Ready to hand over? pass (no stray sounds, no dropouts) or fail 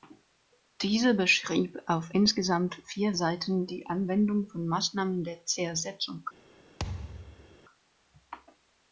fail